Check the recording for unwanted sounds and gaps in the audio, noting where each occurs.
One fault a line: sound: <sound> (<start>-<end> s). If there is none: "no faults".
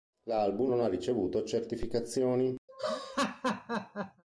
sound: laugh (2.7-4.2 s)